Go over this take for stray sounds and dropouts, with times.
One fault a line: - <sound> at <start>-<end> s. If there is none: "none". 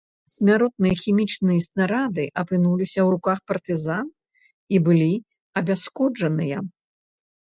none